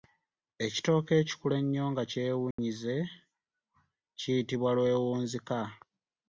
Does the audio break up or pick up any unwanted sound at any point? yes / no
yes